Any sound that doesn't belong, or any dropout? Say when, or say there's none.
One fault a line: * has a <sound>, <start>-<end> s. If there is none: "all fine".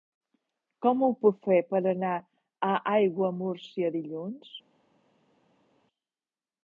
all fine